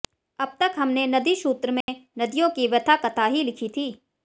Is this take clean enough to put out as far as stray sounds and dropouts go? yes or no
no